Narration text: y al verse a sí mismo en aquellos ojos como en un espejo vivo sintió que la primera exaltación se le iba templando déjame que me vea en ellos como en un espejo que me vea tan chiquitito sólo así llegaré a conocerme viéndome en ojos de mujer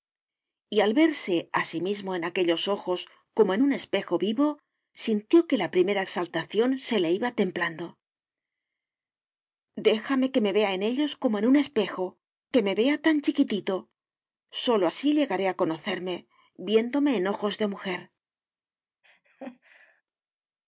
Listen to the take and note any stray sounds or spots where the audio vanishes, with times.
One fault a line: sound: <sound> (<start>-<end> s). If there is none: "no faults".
sound: laugh (19.0-20.0 s)